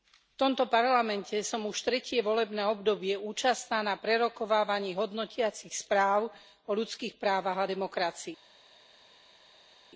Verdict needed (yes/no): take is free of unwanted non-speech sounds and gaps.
yes